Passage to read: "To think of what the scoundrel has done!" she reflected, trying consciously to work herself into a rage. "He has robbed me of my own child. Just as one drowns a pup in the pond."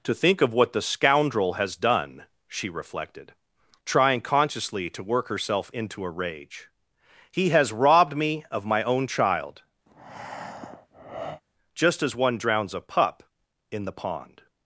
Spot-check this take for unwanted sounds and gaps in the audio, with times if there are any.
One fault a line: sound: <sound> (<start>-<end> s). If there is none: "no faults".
sound: breath (9.9-11.4 s)